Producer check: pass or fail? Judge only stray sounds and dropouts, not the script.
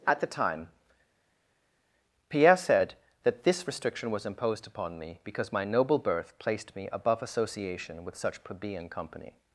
pass